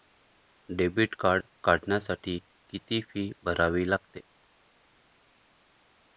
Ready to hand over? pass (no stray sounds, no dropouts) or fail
pass